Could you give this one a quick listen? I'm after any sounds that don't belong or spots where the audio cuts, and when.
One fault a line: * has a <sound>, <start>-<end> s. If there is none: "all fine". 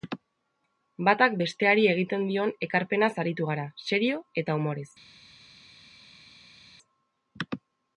all fine